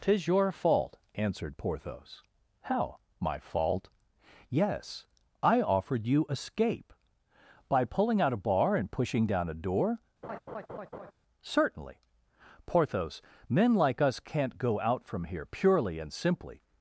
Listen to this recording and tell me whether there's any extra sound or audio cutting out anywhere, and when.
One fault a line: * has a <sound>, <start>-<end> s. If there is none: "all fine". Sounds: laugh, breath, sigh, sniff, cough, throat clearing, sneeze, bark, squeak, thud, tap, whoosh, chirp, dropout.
* has a laugh, 10.2-11.1 s